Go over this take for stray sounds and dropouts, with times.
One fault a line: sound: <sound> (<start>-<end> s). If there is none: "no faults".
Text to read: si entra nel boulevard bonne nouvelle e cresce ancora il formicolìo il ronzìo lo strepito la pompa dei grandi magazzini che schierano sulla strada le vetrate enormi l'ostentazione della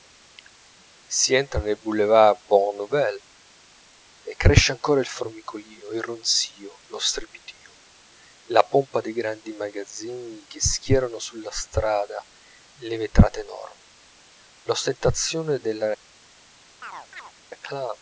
sound: chirp (16.8-17.3 s)